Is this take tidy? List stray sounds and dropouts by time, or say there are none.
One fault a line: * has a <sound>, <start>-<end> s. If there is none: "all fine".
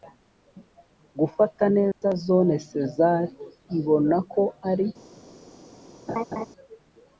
* has a dropout, 1.9-2.0 s
* has a laugh, 6.1-6.5 s